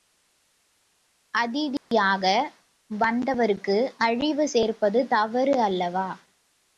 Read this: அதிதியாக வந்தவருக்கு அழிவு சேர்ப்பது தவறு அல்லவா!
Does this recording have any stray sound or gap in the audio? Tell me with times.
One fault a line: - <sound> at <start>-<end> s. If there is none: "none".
- dropout at 1.8-1.9 s